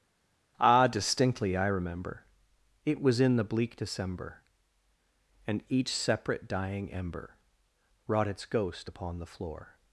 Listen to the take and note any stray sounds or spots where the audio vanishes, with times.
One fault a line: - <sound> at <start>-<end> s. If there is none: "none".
none